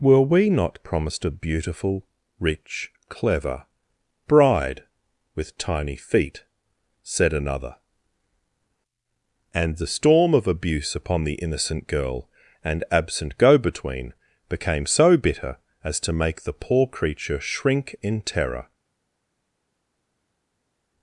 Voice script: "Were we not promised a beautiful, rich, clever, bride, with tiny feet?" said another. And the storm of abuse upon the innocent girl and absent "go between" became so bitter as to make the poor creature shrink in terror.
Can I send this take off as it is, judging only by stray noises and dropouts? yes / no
yes